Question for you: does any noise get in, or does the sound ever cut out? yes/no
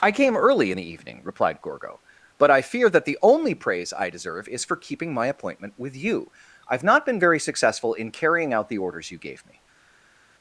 no